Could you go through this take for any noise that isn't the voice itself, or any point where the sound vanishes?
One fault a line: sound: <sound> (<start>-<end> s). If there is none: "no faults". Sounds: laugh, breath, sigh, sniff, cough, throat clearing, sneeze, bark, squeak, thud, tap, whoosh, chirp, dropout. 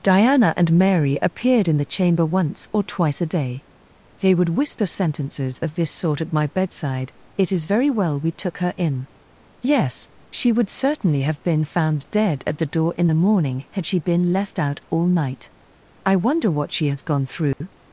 sound: dropout (17.5-17.6 s)